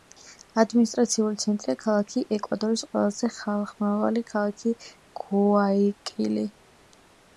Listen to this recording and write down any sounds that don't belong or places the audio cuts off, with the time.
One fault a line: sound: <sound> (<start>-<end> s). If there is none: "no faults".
no faults